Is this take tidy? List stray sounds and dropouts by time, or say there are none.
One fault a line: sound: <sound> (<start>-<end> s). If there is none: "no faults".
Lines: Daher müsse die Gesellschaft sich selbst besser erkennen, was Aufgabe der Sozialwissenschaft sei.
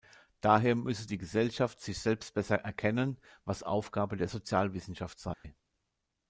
sound: dropout (5.3-5.4 s)